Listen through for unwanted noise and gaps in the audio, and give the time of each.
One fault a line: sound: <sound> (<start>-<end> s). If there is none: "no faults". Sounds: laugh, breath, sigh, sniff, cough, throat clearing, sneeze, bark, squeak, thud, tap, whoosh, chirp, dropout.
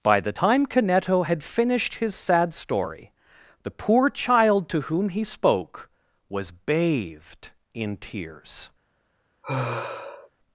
sound: sigh (9.4-10.3 s)